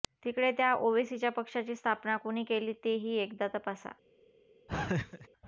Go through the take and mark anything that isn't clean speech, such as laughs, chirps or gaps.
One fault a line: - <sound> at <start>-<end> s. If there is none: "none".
- laugh at 4.7-5.3 s